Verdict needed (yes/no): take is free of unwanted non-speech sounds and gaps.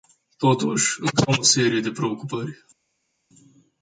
yes